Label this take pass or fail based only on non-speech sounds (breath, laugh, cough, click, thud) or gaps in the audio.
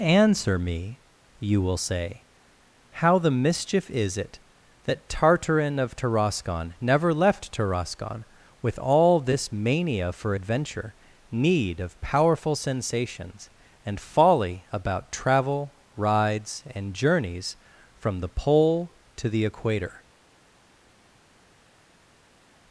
pass